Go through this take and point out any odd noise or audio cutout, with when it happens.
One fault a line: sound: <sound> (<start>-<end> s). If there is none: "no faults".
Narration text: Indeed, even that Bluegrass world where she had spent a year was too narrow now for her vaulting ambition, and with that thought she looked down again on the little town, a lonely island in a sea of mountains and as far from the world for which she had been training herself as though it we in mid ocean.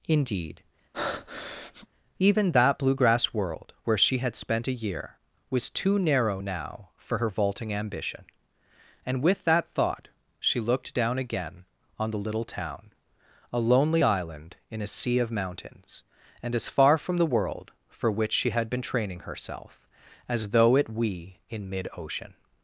sound: breath (0.9-1.9 s)